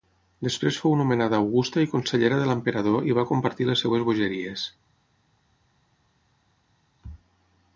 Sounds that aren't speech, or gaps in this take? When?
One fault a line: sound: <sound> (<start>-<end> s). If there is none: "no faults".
no faults